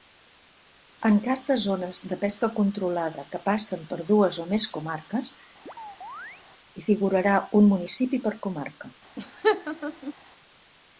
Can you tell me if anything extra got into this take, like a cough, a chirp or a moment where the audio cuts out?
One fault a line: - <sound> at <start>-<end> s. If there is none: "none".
- chirp at 5.7-6.4 s
- laugh at 9.2-10.1 s